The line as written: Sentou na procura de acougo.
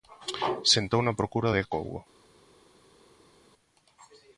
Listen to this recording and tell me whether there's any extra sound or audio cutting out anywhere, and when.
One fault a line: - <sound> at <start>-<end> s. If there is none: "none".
none